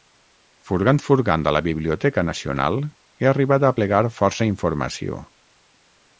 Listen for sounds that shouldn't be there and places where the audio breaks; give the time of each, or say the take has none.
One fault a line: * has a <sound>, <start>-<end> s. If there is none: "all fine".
all fine